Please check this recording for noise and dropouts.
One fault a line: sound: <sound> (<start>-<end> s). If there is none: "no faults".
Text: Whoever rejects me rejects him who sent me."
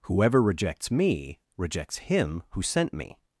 no faults